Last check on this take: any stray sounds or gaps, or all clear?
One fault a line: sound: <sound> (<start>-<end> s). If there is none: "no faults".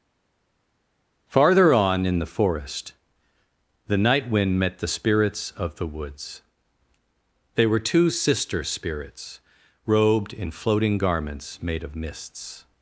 no faults